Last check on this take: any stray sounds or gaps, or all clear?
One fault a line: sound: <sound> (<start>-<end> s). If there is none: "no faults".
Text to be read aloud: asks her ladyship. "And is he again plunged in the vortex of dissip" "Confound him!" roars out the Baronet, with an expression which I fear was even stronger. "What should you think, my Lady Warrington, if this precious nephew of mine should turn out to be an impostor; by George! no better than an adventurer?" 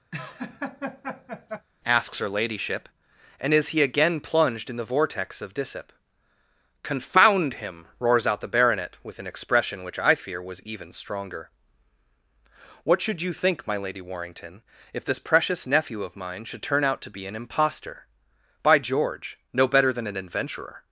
sound: laugh (0.1-1.7 s)